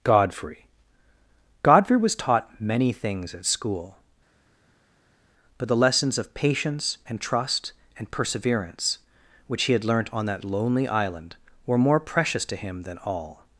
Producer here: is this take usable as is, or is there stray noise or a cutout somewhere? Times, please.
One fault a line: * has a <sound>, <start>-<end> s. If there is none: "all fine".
all fine